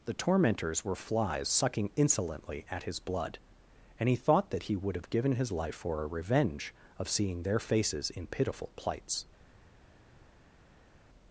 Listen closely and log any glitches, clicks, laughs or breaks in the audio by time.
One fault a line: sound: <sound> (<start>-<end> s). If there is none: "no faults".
no faults